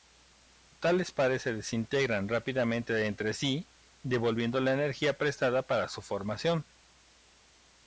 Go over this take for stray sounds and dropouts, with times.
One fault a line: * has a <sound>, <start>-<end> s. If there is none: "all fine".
all fine